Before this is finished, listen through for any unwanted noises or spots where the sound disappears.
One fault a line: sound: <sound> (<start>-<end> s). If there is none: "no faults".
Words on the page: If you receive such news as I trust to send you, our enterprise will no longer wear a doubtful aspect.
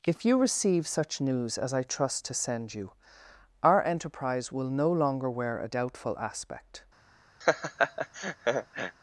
sound: laugh (7.4-9.0 s)